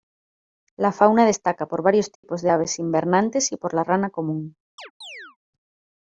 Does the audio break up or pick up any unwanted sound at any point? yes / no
yes